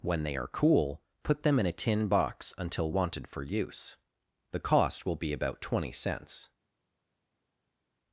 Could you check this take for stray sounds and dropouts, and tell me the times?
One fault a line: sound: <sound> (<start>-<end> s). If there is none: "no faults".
no faults